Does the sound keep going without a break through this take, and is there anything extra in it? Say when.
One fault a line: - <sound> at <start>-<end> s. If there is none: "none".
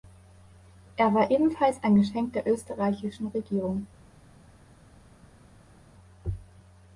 none